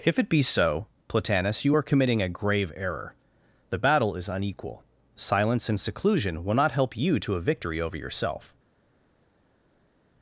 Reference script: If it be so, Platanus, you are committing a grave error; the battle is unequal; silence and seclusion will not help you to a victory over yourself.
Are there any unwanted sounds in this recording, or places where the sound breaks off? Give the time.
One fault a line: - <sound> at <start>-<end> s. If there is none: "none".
none